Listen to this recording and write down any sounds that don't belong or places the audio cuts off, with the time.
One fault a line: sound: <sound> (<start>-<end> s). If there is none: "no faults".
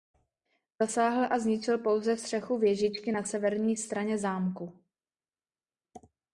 no faults